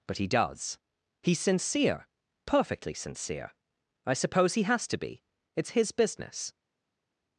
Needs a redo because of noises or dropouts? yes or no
no